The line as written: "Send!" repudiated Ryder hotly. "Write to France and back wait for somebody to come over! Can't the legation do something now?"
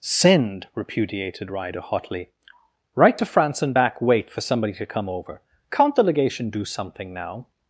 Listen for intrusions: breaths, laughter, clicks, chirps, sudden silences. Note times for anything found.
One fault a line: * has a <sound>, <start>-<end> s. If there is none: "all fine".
all fine